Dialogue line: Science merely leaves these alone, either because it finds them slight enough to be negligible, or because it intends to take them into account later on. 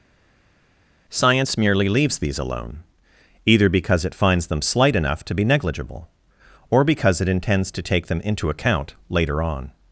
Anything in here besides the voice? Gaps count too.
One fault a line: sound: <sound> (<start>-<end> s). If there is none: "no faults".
no faults